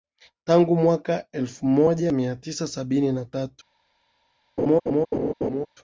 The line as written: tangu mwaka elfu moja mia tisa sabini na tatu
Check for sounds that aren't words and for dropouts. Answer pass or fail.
fail